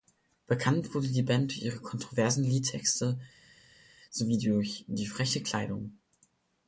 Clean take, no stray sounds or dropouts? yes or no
yes